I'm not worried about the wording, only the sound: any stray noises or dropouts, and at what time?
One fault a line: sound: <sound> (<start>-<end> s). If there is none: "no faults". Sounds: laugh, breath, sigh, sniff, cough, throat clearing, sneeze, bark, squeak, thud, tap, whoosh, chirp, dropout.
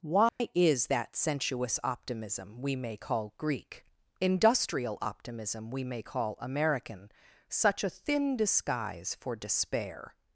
sound: dropout (0.3-0.4 s)